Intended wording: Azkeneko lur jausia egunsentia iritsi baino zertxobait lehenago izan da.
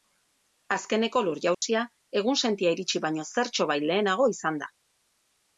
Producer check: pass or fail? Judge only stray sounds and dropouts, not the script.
fail